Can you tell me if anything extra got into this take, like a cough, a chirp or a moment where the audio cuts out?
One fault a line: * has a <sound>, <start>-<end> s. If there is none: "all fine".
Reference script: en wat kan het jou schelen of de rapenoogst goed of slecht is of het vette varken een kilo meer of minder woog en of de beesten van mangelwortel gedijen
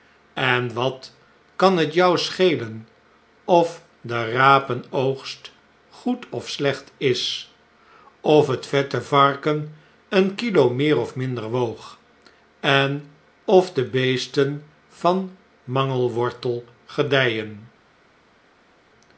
all fine